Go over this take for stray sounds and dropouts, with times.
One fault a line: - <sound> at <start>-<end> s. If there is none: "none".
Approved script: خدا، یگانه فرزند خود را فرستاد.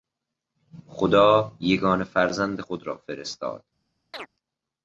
- chirp at 4.1-4.3 s